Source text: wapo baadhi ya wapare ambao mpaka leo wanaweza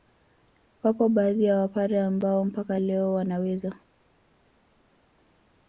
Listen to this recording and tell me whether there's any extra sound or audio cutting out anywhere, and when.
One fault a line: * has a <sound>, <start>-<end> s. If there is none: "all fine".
all fine